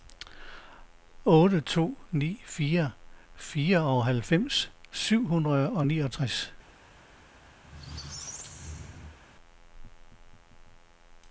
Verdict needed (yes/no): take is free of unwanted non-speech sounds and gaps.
no